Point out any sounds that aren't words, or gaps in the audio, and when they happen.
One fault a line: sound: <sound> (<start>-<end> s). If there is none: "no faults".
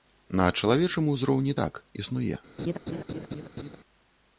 sound: laugh (2.6-3.8 s)